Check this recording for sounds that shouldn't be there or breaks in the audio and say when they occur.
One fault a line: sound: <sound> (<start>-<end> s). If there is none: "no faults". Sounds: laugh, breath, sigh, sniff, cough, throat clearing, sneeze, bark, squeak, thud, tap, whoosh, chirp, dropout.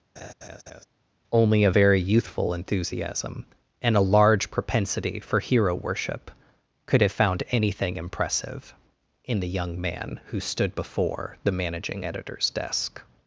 sound: laugh (0.2-0.8 s)